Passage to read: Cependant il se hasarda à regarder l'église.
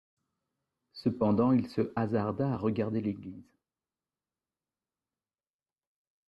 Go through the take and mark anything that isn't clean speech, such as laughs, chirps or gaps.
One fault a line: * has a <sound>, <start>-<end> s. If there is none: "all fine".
all fine